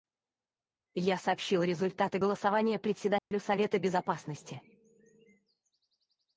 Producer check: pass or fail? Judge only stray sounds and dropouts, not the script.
fail